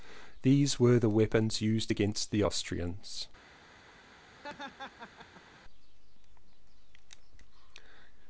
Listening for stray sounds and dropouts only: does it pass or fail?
fail